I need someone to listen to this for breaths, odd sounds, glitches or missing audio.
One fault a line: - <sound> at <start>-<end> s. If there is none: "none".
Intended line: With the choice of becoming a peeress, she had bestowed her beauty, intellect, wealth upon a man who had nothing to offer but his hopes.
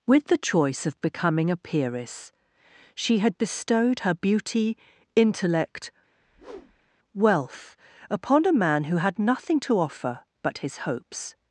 - whoosh at 6.2-7.0 s